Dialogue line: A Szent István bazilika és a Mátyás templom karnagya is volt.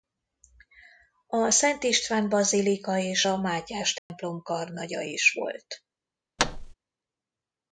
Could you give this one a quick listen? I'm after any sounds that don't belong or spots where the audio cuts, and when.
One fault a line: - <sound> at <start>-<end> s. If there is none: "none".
- dropout at 4.0-4.1 s
- thud at 6.4-6.7 s